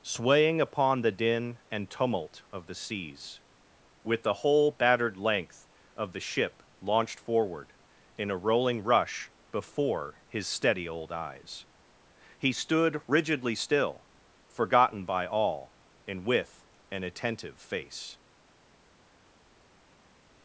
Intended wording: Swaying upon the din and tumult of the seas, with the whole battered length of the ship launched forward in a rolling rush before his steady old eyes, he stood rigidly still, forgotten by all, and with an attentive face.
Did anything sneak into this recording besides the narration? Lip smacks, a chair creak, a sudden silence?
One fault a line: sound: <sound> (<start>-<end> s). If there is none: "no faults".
no faults